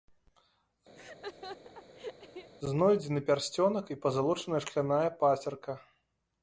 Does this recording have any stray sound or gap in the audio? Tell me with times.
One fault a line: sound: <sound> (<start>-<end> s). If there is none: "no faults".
sound: laugh (1.0-2.5 s)